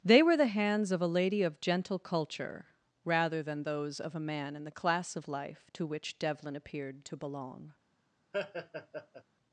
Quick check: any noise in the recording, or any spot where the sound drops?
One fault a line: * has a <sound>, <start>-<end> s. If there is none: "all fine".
* has a laugh, 8.3-9.2 s